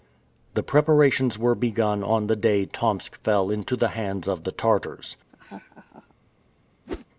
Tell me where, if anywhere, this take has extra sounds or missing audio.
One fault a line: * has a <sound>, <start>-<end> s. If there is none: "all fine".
* has a laugh, 5.3-6.1 s
* has a whoosh, 6.9-7.1 s